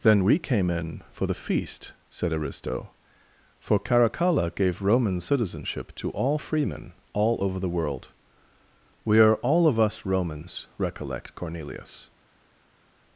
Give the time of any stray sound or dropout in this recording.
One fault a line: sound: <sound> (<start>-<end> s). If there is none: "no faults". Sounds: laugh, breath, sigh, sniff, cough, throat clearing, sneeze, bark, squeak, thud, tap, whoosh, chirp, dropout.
no faults